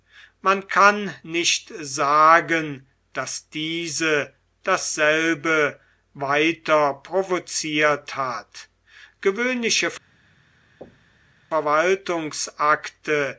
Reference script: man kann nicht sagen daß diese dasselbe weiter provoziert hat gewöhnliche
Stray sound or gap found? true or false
true